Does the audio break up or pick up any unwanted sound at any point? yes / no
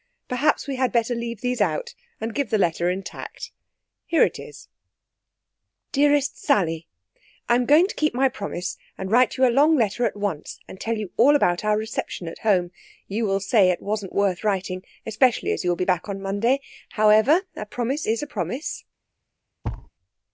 yes